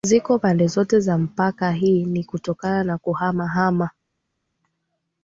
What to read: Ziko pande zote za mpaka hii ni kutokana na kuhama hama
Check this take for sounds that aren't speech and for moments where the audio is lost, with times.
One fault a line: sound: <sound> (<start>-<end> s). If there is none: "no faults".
no faults